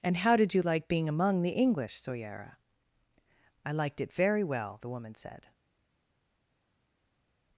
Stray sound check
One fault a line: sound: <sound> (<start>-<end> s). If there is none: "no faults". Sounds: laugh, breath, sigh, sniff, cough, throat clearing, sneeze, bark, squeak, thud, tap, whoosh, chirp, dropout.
no faults